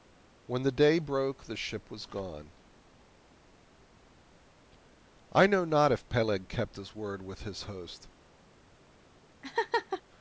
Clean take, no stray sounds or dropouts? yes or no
no